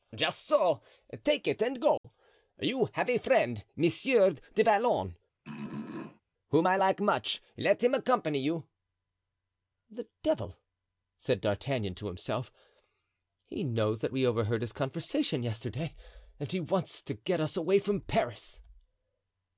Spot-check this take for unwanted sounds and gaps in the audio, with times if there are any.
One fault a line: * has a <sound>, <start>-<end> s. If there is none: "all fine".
* has a dropout, 2.0-2.0 s
* has a throat clearing, 5.4-6.2 s